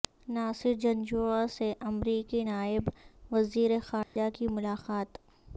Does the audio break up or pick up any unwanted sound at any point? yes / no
yes